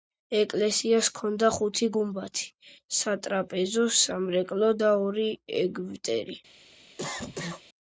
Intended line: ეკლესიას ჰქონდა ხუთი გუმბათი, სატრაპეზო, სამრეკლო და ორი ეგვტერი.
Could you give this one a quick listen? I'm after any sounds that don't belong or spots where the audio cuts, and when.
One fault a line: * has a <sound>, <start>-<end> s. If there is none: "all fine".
* has a cough, 7.0-7.6 s